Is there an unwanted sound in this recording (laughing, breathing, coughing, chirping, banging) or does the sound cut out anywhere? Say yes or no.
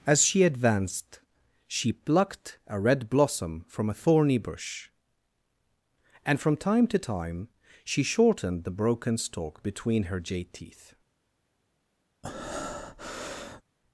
yes